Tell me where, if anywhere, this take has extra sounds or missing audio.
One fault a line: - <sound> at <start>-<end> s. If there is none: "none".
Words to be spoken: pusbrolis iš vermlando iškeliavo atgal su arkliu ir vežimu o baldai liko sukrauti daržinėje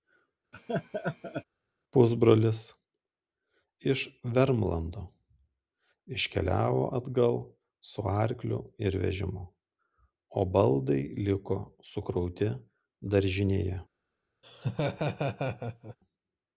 - laugh at 0.5-1.4 s
- laugh at 14.4-16.0 s